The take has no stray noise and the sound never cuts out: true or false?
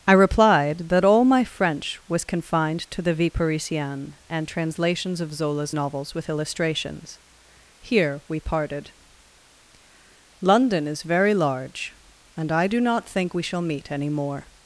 true